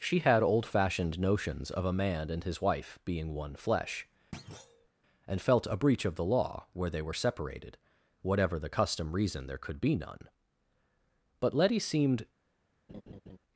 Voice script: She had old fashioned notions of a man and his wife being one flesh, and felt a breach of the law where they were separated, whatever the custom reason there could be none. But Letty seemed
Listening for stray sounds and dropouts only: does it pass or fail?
fail